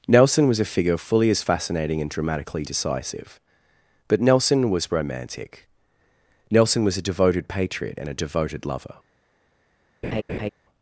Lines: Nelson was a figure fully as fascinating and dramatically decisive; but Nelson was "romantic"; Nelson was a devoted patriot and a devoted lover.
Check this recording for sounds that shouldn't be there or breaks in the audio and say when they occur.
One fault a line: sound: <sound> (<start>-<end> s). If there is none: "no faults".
sound: laugh (10.0-10.5 s)